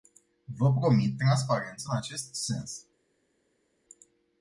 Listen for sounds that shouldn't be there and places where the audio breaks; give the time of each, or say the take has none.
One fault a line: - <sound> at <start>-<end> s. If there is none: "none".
none